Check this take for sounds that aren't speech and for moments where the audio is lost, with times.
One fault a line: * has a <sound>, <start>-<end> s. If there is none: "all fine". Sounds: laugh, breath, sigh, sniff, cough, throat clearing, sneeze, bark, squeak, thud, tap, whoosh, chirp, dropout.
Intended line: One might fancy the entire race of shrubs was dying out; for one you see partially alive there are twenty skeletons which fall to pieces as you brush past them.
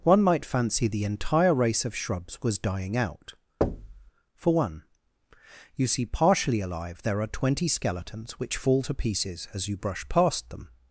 * has a thud, 3.6-4.1 s